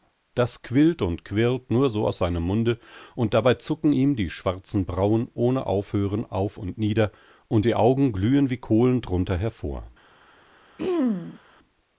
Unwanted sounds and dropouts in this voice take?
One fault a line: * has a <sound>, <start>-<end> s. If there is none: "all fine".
* has a throat clearing, 10.8-11.4 s